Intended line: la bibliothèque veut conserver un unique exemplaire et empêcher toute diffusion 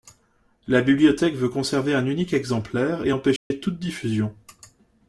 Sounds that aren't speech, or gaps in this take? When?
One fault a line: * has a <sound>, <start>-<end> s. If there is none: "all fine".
* has a dropout, 3.4-3.5 s